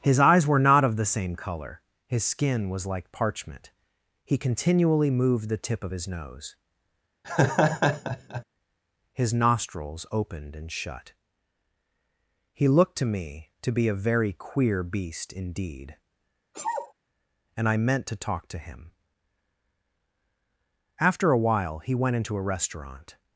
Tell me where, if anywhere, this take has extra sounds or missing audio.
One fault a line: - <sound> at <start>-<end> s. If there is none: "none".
- laugh at 7.2-8.4 s
- sneeze at 16.5-16.9 s